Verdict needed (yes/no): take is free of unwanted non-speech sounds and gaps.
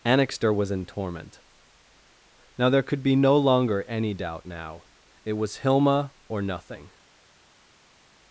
yes